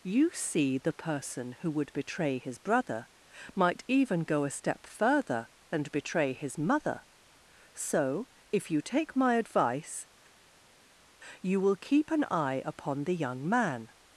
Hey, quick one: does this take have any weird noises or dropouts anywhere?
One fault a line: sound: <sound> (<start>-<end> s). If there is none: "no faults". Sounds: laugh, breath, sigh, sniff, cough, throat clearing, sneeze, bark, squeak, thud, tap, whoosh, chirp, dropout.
no faults